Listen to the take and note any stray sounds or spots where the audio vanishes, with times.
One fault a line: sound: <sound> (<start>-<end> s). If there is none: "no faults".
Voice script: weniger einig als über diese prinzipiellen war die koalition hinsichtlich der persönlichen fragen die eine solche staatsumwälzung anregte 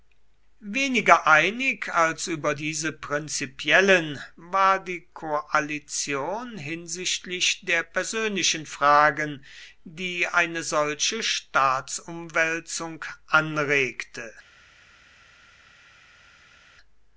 no faults